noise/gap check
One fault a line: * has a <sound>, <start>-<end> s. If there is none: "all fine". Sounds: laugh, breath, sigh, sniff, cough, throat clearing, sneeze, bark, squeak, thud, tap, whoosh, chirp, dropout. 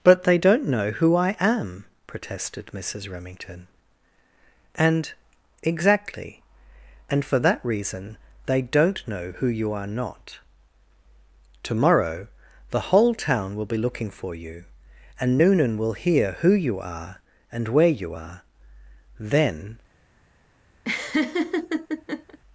* has a laugh, 20.8-22.4 s